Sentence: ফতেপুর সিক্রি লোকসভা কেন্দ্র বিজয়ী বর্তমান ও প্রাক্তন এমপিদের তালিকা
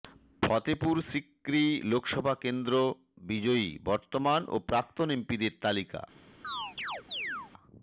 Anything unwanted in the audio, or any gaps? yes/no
yes